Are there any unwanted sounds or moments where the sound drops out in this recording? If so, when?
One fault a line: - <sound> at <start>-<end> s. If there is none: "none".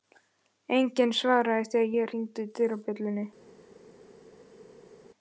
none